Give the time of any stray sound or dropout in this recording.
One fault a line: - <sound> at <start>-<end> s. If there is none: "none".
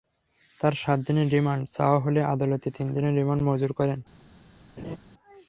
- laugh at 4.8-5.0 s